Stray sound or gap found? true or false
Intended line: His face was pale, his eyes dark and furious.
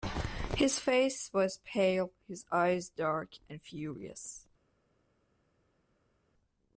false